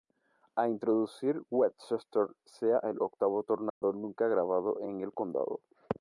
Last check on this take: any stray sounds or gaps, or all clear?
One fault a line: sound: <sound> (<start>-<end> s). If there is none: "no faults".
sound: dropout (3.7-3.8 s)